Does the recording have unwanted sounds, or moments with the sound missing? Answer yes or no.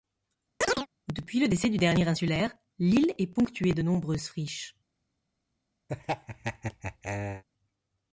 yes